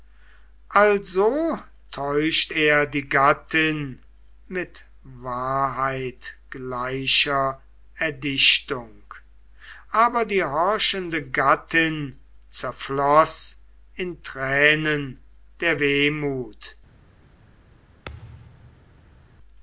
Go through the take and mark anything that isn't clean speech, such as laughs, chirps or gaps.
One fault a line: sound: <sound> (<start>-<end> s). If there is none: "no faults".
sound: thud (18.1-19.4 s)